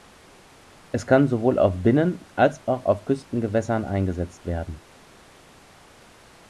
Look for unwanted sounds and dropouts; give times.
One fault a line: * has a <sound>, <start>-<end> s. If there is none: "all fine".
all fine